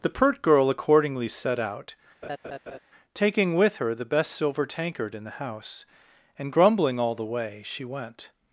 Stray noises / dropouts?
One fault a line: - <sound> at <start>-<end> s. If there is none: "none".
- laugh at 2.2-2.8 s